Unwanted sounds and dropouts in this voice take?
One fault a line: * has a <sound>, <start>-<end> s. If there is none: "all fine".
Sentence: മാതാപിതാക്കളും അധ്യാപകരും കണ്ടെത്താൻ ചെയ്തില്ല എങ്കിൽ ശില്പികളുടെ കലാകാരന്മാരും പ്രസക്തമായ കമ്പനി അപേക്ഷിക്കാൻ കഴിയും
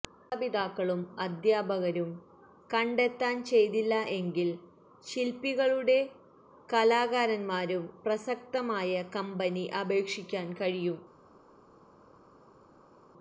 all fine